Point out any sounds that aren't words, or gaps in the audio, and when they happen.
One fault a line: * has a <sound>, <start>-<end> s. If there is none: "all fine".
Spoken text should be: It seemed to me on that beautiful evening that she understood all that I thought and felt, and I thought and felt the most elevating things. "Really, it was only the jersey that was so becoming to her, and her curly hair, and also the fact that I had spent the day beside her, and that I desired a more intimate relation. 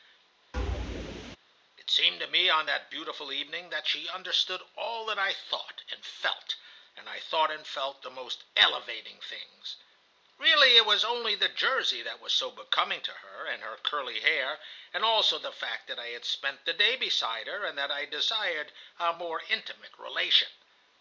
* has a thud, 0.5-1.4 s